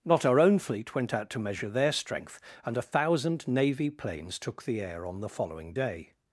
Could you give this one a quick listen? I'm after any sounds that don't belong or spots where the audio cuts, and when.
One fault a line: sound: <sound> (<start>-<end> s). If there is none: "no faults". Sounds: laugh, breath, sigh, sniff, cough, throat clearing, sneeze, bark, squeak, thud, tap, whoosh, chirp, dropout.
no faults